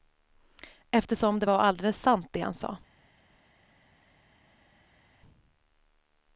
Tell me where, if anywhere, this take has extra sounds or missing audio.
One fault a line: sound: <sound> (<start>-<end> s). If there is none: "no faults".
no faults